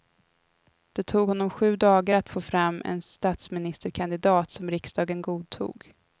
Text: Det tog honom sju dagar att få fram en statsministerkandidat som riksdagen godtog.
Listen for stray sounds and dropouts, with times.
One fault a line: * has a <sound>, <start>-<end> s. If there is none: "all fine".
all fine